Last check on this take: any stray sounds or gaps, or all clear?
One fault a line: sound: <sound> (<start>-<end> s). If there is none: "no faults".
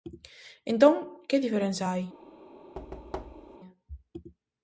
sound: thud (2.7-3.6 s)